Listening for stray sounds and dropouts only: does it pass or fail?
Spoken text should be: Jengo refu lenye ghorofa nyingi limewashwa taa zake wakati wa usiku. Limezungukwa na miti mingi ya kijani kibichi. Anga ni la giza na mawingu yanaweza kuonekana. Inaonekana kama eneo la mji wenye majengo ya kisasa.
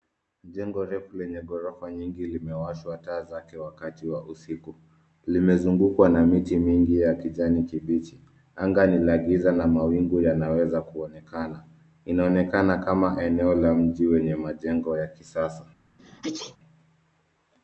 fail